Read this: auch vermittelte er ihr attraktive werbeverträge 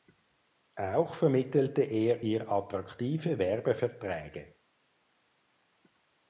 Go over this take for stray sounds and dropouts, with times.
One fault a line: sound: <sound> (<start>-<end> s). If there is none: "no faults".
no faults